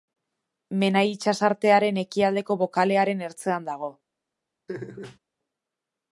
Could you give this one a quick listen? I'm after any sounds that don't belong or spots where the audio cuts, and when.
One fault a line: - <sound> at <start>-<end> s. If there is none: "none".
- laugh at 4.7-5.2 s